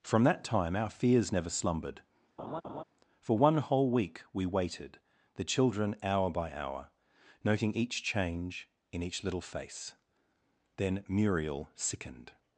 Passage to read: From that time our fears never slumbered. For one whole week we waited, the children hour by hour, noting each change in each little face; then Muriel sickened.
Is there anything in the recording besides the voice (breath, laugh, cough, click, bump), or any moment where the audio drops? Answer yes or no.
yes